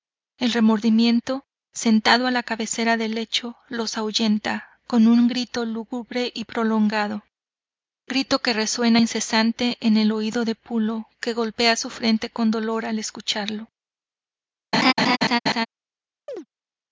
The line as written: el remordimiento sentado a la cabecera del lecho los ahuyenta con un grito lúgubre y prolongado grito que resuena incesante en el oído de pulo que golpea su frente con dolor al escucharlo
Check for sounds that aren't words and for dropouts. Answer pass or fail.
fail